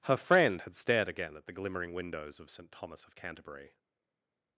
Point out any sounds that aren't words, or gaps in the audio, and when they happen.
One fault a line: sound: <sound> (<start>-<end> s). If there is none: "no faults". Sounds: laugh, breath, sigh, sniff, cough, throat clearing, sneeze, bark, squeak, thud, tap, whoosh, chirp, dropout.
no faults